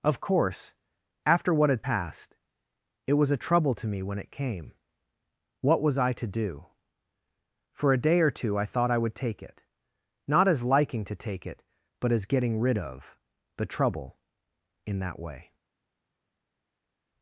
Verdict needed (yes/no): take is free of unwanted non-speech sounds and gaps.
yes